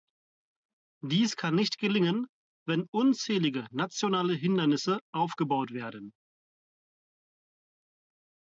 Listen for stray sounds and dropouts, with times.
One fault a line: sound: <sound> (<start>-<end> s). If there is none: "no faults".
no faults